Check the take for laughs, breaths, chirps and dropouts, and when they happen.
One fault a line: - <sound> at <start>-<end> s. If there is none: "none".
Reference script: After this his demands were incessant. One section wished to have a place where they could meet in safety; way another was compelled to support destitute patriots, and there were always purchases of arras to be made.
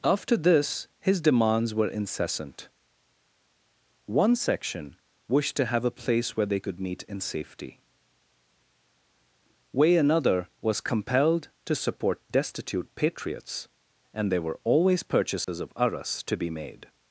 - dropout at 15.4-15.5 s